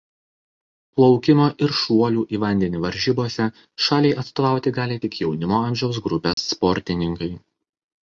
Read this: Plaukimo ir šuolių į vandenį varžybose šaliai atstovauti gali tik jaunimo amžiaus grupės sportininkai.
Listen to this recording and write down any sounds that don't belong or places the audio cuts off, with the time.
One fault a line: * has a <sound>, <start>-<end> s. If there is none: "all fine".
* has a dropout, 6.3-6.4 s